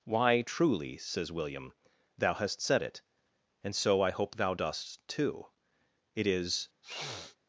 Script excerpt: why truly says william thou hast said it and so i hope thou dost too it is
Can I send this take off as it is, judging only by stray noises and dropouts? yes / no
no